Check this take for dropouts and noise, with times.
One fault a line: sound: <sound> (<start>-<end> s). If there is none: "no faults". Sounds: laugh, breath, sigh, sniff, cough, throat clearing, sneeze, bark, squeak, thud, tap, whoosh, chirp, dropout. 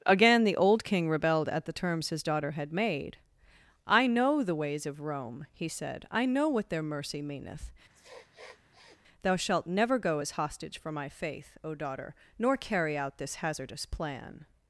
sound: sniff (7.9-9.0 s)